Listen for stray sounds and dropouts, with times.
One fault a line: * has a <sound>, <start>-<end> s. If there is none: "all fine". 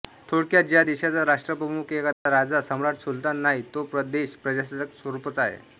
* has a dropout, 2.1-2.3 s